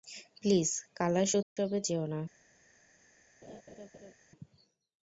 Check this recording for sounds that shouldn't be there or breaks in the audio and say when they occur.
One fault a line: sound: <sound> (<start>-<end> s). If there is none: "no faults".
sound: dropout (1.4-1.6 s)
sound: laugh (3.4-4.1 s)